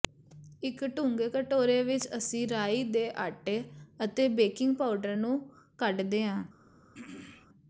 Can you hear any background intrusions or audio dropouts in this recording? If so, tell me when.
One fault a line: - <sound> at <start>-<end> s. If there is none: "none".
- throat clearing at 6.9-7.5 s